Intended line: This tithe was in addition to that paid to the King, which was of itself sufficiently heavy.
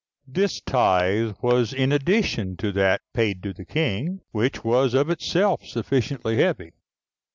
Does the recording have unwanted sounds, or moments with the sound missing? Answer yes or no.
no